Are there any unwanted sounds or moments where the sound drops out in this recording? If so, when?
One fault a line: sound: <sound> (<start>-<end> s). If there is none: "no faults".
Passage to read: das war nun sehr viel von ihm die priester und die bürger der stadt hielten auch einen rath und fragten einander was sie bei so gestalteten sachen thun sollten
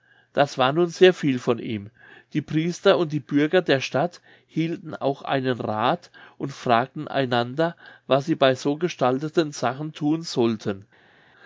no faults